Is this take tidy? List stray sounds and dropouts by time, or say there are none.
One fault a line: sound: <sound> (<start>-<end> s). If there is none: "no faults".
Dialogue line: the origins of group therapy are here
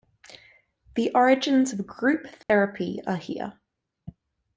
sound: dropout (2.4-2.5 s)